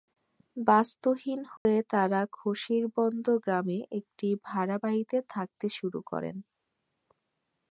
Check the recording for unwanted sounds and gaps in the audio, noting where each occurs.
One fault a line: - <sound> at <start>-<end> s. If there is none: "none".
- dropout at 1.6-1.7 s